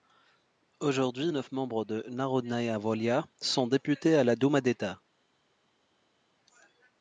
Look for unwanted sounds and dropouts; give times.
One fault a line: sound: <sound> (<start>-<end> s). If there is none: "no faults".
no faults